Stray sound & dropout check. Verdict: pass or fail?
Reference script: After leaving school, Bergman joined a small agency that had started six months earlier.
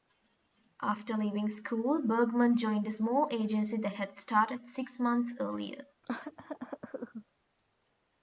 fail